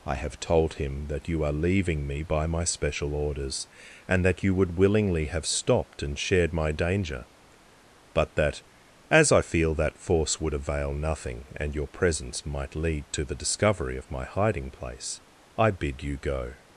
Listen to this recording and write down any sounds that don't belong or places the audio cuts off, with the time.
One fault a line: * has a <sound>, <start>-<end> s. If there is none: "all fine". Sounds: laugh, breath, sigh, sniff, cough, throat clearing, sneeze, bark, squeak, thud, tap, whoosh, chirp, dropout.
all fine